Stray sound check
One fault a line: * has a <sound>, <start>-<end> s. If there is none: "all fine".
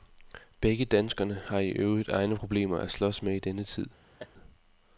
* has a laugh, 4.2-4.3 s